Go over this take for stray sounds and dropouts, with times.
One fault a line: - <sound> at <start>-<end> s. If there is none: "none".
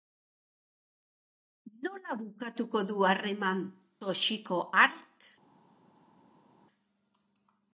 none